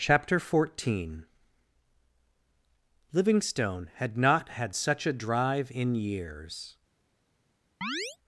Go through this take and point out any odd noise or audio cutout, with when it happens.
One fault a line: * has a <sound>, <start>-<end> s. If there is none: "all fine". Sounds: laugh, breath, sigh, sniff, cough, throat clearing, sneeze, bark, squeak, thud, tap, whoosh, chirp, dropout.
* has a chirp, 7.8-8.2 s